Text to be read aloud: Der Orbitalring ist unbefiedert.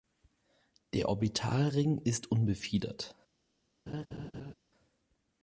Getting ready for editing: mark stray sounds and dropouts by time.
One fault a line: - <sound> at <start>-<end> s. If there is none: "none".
- laugh at 3.9-4.5 s